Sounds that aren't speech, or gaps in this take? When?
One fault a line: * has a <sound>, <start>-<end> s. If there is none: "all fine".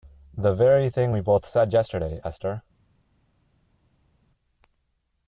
all fine